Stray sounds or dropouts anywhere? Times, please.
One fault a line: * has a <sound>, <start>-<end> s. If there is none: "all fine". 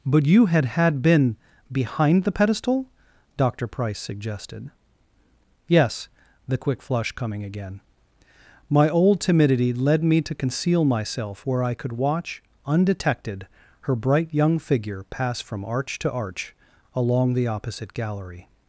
all fine